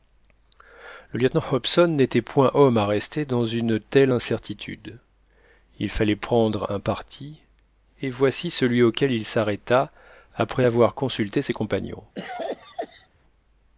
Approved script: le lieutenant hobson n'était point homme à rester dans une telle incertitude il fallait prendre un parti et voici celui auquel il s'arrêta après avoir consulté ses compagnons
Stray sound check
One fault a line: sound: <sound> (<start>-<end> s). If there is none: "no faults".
sound: cough (12.1-13.1 s)